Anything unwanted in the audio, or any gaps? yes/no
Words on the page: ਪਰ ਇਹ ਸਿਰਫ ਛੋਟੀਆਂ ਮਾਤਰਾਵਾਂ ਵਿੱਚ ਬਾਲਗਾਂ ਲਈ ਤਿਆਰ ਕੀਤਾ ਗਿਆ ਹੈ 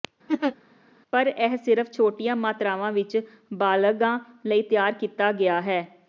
yes